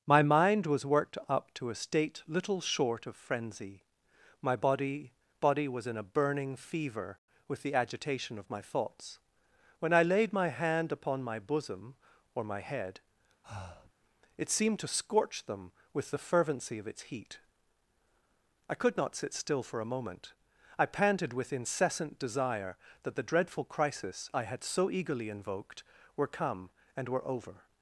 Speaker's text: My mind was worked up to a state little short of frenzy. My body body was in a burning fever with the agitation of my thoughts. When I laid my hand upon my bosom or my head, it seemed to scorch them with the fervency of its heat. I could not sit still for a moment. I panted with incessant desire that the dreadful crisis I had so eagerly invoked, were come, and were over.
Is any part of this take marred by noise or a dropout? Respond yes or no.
yes